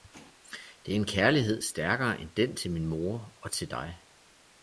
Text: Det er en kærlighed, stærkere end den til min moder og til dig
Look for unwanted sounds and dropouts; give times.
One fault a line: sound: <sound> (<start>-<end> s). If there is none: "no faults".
no faults